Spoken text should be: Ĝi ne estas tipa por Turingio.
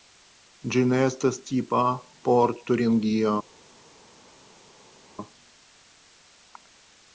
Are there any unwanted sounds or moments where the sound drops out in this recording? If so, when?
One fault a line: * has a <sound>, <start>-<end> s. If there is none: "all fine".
all fine